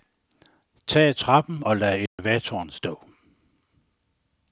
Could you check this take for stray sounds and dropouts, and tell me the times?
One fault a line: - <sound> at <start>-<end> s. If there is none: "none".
- dropout at 2.1-2.2 s